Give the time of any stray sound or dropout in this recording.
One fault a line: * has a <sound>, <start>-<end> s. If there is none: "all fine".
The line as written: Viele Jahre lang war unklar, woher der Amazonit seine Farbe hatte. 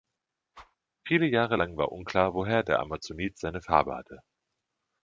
* has a whoosh, 0.5-0.8 s